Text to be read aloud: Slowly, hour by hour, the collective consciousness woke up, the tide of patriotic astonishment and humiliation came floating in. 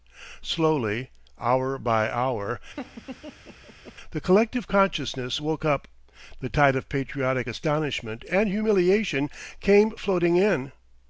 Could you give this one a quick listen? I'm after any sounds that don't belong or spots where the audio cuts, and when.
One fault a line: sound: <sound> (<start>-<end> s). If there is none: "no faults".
sound: laugh (2.8-4.0 s)